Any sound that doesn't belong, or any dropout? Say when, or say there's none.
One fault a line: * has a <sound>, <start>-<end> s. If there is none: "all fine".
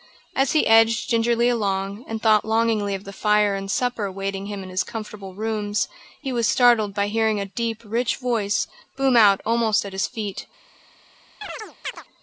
* has a chirp, 11.4-12.0 s